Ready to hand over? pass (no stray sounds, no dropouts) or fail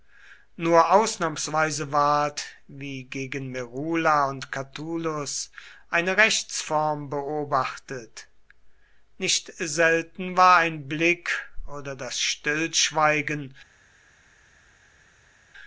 pass